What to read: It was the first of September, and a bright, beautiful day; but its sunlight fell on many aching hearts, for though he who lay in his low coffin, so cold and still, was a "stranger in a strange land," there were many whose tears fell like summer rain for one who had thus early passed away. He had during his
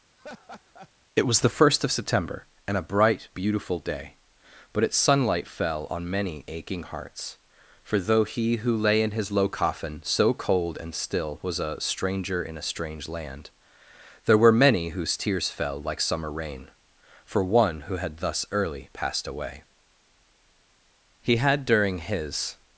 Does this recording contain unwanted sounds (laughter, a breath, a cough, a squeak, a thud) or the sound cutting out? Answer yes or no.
yes